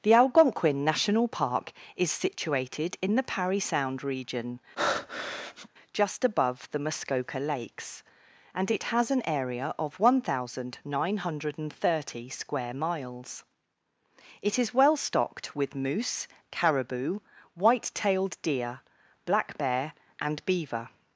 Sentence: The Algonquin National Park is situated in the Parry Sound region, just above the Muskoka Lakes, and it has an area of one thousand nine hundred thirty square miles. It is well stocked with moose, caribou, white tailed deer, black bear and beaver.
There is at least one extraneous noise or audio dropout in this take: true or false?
true